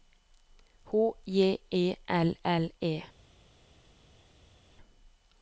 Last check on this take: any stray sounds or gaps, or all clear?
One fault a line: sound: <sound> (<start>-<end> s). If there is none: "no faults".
no faults